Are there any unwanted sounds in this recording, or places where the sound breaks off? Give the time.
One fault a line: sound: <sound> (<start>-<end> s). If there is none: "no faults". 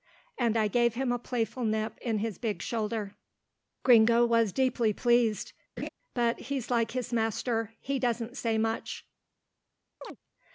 sound: laugh (5.8-5.9 s)
sound: chirp (10.0-10.2 s)